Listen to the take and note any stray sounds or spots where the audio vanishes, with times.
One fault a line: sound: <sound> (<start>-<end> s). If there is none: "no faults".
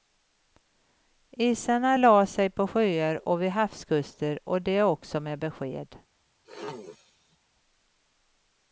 sound: throat clearing (6.4-7.4 s)